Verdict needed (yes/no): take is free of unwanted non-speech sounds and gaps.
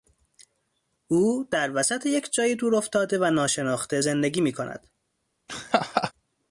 no